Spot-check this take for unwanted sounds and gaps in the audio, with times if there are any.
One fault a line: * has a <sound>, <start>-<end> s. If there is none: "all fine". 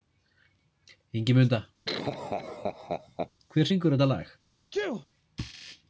* has a laugh, 1.9-3.3 s
* has a sneeze, 4.7-5.1 s